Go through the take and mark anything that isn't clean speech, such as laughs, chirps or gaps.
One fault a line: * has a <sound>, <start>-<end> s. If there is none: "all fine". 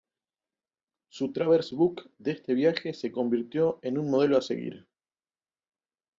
all fine